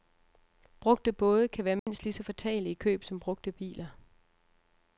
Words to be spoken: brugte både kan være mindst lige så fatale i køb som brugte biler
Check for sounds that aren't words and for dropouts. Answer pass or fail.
fail